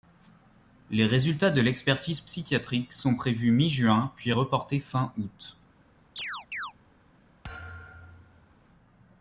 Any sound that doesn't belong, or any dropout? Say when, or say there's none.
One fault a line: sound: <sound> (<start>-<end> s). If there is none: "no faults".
sound: chirp (6.2-6.7 s)
sound: thud (7.4-8.6 s)